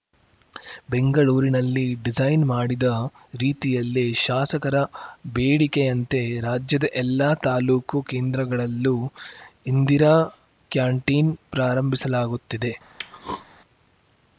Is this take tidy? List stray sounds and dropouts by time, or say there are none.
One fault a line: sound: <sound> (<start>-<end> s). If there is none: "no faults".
sound: throat clearing (13.0-13.5 s)